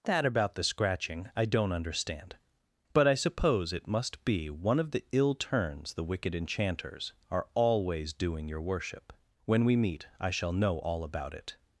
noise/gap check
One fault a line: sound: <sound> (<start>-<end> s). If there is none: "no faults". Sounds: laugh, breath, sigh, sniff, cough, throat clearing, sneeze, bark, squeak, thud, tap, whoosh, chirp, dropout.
no faults